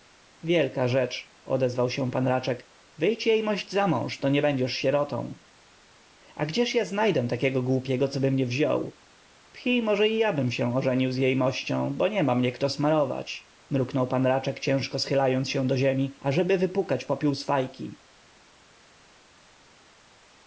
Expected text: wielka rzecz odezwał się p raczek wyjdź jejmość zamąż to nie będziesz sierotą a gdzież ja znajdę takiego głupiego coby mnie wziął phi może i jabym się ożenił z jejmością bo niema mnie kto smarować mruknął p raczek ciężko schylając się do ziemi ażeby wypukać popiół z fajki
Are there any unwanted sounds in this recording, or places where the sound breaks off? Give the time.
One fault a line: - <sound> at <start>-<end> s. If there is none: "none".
none